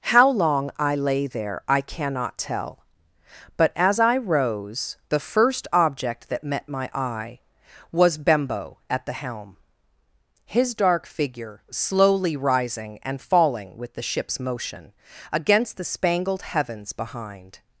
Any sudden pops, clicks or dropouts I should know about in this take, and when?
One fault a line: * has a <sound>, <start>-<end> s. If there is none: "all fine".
all fine